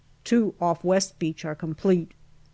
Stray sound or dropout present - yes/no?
no